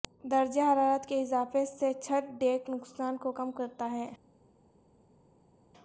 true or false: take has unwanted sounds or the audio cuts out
false